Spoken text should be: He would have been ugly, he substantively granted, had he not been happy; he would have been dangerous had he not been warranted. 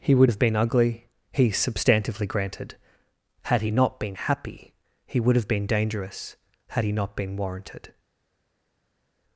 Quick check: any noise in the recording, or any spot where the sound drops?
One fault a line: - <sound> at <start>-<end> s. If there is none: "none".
none